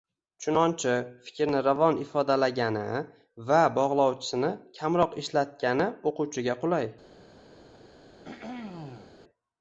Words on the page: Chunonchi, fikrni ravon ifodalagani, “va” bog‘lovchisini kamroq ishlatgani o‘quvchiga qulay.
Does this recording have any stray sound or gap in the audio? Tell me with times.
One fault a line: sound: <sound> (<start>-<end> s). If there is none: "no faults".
sound: throat clearing (8.2-9.2 s)